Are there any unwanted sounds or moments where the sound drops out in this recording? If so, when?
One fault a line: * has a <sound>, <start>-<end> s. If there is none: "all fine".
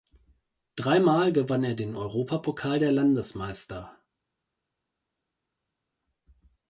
all fine